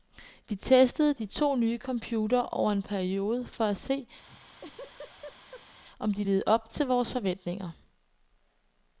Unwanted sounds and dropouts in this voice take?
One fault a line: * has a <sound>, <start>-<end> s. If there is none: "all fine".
* has a laugh, 4.3-5.8 s